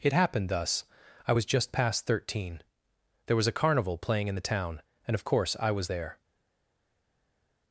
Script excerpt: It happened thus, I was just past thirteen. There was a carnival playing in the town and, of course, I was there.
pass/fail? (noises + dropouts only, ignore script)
pass